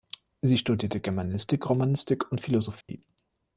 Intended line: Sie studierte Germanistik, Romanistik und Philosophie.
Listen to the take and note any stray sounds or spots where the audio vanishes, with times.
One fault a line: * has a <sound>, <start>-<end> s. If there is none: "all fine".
* has a dropout, 2.8-2.9 s